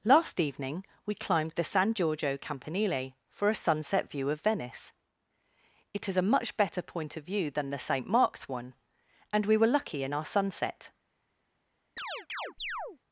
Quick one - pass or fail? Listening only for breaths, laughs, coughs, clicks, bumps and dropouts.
fail